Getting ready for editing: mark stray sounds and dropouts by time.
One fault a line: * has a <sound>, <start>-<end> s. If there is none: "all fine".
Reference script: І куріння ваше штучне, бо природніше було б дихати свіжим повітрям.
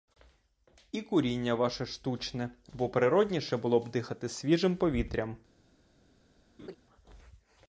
* has a laugh, 6.6-6.7 s